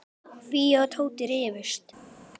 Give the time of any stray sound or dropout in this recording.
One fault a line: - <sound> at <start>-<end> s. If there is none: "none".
none